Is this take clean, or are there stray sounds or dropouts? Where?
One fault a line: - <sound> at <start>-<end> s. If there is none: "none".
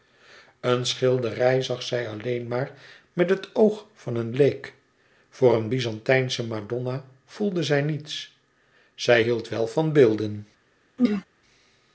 - throat clearing at 11.0-11.2 s